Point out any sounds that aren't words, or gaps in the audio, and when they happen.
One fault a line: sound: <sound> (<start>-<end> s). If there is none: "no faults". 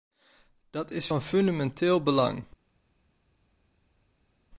no faults